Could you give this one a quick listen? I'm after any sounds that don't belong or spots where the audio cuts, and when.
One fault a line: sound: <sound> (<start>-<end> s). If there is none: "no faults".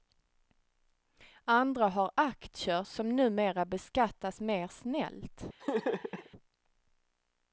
sound: laugh (5.6-6.3 s)